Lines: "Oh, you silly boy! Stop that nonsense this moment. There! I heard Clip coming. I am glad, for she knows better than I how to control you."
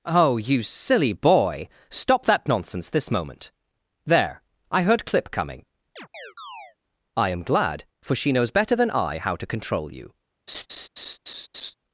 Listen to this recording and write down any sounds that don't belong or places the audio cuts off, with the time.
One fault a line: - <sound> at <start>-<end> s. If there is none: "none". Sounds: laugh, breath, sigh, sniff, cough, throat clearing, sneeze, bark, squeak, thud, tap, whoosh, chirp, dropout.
- chirp at 6.0-6.8 s
- laugh at 10.5-11.7 s